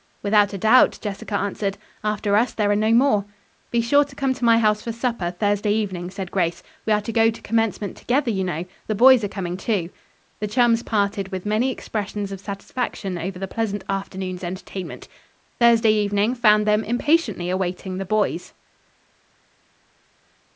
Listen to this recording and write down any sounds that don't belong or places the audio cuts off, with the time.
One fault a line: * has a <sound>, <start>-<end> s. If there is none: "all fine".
all fine